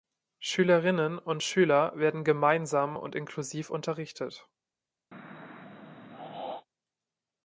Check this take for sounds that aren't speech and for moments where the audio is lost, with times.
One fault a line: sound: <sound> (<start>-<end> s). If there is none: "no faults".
sound: throat clearing (5.1-6.7 s)